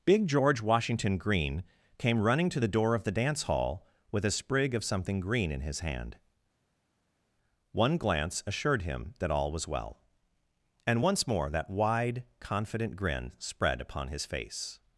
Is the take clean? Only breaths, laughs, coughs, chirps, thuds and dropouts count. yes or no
yes